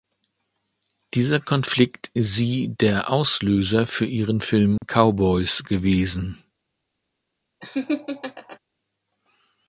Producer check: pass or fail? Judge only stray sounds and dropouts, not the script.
fail